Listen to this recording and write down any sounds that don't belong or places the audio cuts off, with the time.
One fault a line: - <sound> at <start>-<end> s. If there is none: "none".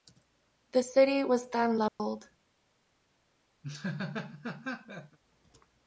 - dropout at 1.9-2.0 s
- laugh at 3.6-5.2 s